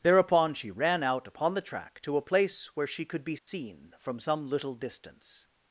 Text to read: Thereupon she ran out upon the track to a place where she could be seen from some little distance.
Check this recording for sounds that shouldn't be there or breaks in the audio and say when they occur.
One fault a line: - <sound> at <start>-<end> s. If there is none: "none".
- dropout at 3.4-3.5 s